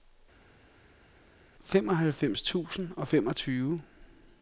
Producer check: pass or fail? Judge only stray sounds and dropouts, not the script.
pass